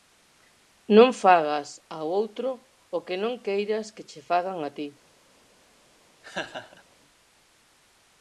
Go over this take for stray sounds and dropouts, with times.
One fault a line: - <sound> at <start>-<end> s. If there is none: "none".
- laugh at 6.2-6.8 s